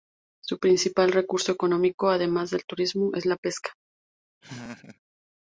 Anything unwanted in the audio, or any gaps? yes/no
yes